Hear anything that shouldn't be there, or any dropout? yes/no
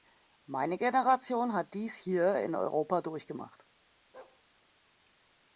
yes